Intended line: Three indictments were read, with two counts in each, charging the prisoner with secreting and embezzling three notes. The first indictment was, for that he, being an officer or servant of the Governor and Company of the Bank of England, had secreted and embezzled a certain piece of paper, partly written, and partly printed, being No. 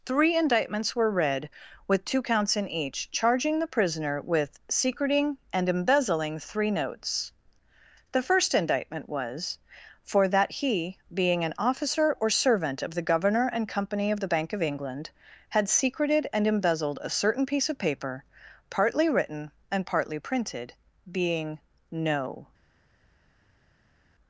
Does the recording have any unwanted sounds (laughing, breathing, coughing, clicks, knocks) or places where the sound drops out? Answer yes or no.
no